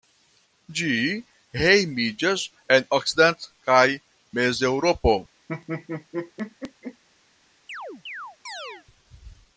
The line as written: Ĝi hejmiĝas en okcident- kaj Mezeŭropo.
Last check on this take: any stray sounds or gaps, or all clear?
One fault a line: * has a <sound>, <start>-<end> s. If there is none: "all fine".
* has a laugh, 5.5-7.0 s
* has a chirp, 7.7-8.9 s